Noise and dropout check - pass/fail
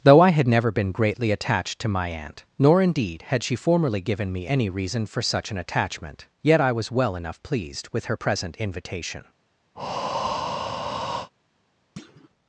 fail